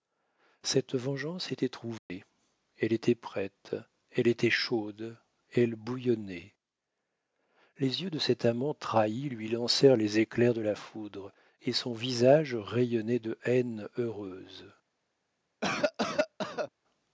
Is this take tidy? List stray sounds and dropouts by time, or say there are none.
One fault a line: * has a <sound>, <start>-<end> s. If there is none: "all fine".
* has a dropout, 2.0-2.1 s
* has a cough, 15.6-16.7 s